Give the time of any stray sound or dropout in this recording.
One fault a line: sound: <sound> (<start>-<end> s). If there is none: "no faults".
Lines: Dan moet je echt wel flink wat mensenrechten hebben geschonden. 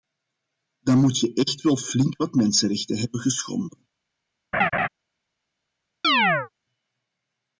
sound: laugh (4.5-4.9 s)
sound: chirp (6.0-6.5 s)